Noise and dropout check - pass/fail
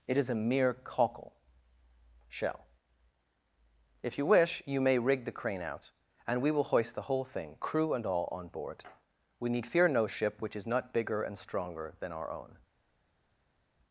pass